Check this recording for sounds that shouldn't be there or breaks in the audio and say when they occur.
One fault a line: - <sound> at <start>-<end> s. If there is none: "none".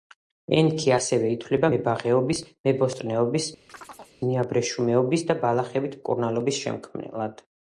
- chirp at 3.7-4.2 s